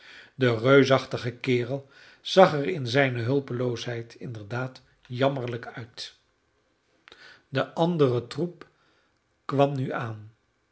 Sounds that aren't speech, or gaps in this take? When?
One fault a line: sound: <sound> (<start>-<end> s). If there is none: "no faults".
no faults